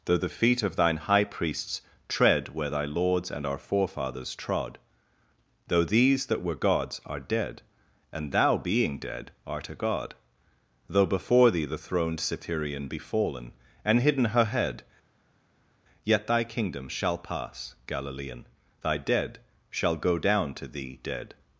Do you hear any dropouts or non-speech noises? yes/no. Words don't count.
no